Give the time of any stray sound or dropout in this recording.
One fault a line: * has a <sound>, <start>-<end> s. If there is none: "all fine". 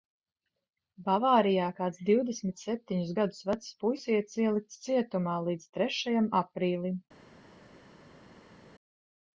all fine